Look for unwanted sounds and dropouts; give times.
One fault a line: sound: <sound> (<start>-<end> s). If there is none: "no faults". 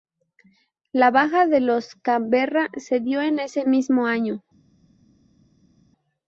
no faults